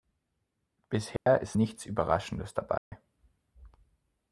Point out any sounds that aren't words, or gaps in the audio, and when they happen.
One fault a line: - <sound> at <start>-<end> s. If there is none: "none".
- dropout at 1.2-1.3 s
- dropout at 2.8-2.9 s